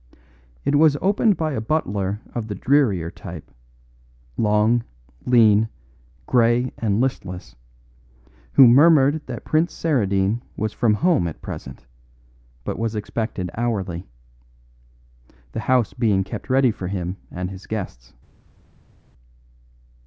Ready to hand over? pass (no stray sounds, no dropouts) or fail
pass